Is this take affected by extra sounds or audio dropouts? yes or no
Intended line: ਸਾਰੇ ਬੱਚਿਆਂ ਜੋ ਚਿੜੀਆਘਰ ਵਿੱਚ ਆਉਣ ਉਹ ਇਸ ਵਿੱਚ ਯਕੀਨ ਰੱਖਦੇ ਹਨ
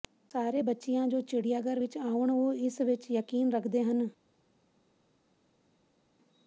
no